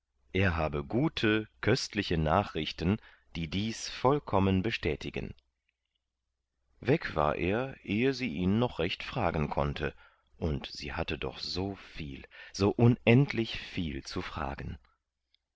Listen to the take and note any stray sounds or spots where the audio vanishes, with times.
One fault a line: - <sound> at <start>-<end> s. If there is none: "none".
none